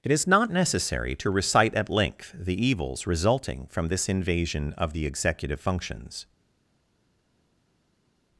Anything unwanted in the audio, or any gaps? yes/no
no